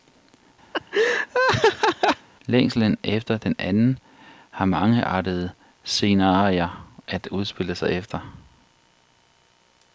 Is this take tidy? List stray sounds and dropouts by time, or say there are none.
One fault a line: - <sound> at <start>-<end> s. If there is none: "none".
- laugh at 0.7-2.3 s